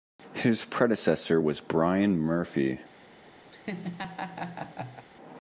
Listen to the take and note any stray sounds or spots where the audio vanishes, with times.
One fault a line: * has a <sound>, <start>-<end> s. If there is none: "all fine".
* has a laugh, 3.5-5.1 s